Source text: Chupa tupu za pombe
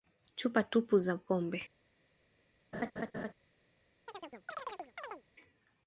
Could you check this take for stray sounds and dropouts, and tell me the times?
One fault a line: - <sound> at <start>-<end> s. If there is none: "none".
- laugh at 2.7-3.3 s
- chirp at 4.1-5.2 s